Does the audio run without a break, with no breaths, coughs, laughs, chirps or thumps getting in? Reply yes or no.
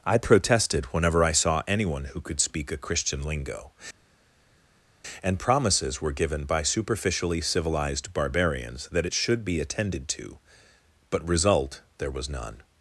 yes